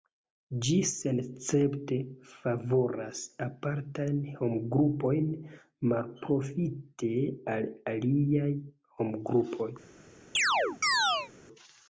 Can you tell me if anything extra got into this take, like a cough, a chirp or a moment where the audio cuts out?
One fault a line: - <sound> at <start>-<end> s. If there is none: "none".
- chirp at 10.3-11.3 s